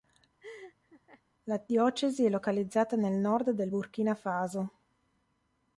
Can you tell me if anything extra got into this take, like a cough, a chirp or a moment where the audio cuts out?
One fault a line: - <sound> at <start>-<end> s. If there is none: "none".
- laugh at 0.4-1.2 s